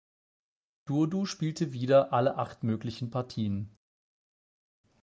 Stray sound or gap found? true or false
false